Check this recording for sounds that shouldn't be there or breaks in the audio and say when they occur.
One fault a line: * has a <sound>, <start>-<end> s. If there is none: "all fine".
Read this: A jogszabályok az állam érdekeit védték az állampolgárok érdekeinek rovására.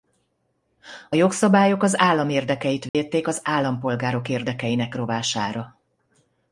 * has a dropout, 2.9-2.9 s